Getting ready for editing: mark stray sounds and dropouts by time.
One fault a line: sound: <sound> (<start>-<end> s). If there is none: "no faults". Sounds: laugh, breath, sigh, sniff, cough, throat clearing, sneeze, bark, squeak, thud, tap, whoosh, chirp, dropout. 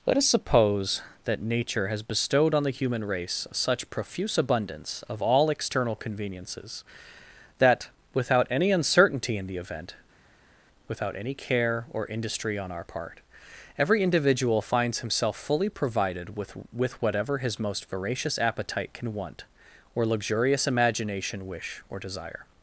no faults